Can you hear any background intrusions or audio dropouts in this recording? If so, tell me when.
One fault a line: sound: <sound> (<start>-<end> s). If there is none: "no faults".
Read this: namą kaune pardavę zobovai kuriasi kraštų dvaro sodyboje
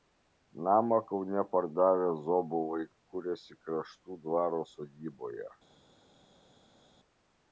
no faults